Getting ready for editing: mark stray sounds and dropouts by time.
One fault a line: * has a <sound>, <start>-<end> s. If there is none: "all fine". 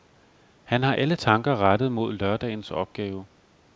all fine